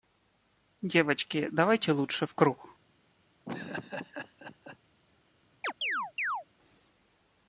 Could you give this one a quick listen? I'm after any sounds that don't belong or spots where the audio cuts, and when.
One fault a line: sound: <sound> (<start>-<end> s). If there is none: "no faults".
sound: laugh (3.5-4.8 s)
sound: chirp (5.6-6.4 s)